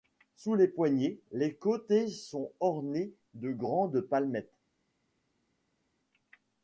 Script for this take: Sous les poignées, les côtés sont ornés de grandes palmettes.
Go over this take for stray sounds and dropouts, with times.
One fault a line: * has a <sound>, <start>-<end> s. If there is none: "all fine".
all fine